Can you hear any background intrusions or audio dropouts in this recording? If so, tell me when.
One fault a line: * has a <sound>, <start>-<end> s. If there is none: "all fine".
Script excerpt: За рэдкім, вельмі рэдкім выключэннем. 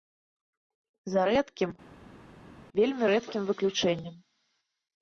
all fine